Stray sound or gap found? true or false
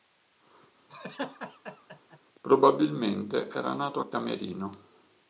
true